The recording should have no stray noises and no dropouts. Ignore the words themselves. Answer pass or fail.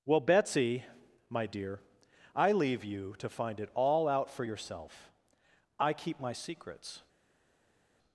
pass